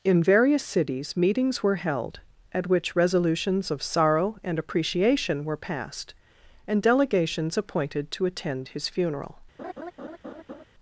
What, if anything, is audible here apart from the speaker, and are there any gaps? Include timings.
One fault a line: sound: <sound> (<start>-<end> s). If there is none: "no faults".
sound: laugh (9.6-10.6 s)